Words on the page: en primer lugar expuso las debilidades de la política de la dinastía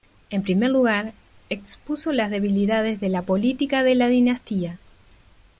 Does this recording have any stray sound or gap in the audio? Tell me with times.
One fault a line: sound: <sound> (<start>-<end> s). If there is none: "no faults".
no faults